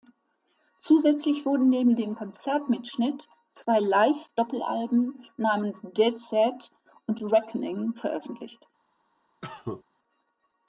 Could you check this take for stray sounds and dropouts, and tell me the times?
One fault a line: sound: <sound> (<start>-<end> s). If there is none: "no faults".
sound: cough (9.4-9.8 s)